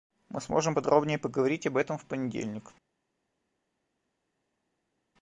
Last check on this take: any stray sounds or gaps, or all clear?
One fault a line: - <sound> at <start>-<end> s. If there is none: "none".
none